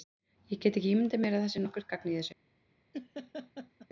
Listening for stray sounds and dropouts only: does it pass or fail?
fail